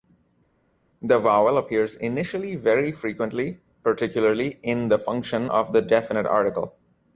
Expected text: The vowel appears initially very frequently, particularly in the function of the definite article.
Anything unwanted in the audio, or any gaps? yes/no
no